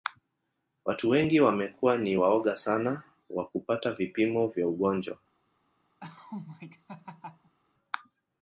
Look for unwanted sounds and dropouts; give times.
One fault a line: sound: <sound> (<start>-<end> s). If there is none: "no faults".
sound: laugh (6.0-7.5 s)